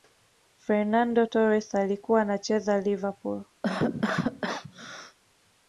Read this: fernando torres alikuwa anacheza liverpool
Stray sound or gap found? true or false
true